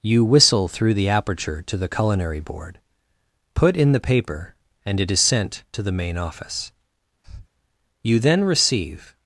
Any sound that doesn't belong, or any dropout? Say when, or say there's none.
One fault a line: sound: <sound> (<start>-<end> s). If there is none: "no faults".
sound: breath (7.2-7.5 s)